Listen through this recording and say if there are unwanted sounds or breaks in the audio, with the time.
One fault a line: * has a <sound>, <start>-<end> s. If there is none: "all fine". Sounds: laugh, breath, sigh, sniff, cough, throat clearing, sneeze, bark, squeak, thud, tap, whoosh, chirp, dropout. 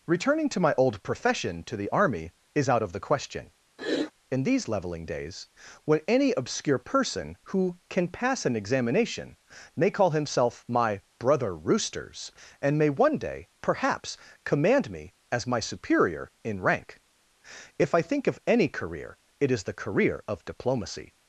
* has a sniff, 3.8-4.1 s